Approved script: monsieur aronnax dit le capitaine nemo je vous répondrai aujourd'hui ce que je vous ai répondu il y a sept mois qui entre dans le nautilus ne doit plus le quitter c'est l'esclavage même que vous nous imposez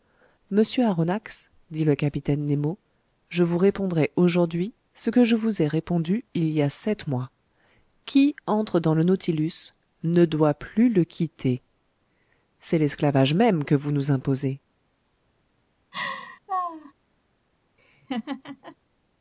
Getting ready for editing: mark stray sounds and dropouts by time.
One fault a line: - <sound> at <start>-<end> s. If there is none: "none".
- laugh at 15.9-16.9 s
- laugh at 17.8-18.8 s